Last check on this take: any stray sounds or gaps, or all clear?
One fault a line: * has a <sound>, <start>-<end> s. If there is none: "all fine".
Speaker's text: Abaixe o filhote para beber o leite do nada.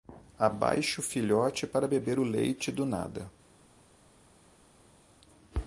all fine